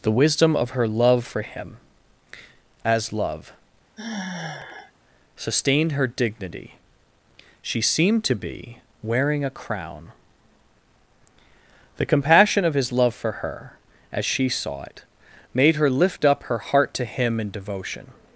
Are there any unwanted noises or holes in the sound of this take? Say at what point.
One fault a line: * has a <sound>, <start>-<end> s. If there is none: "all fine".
* has a sigh, 4.0-4.9 s